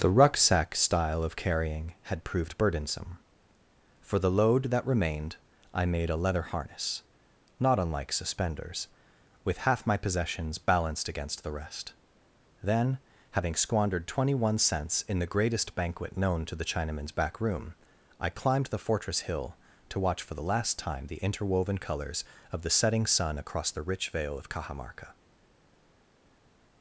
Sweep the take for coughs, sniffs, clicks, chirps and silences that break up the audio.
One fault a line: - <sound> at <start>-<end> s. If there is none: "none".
none